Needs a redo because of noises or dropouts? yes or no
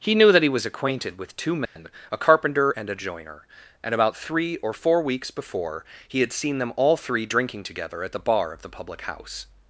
yes